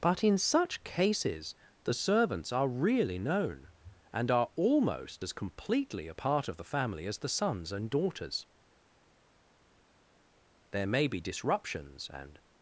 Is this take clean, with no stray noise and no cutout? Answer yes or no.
yes